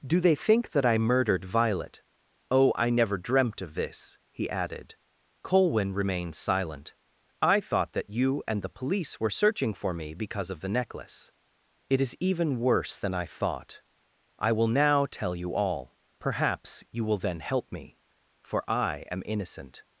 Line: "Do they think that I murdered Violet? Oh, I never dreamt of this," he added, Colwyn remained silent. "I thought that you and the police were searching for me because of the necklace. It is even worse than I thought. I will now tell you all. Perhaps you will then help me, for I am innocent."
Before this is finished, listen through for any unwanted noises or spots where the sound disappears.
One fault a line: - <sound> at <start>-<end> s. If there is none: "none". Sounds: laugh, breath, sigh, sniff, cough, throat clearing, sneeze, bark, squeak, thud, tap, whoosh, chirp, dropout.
none